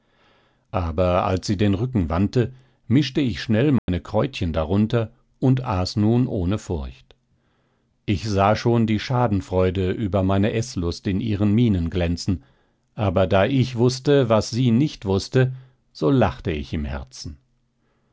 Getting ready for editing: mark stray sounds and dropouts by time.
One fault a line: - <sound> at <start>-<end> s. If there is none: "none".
- dropout at 3.8-3.9 s